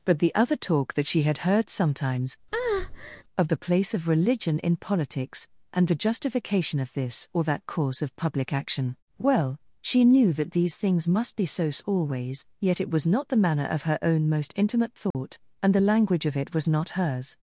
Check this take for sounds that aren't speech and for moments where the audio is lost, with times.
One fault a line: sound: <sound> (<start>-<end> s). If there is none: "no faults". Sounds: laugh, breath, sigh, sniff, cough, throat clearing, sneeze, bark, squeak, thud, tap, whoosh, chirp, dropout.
sound: breath (2.5-3.2 s)
sound: dropout (15.1-15.1 s)